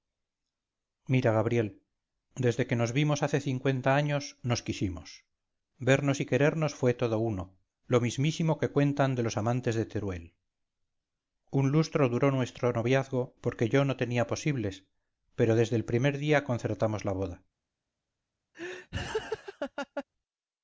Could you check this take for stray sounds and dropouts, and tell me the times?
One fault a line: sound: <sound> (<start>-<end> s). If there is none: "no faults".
sound: laugh (18.5-20.0 s)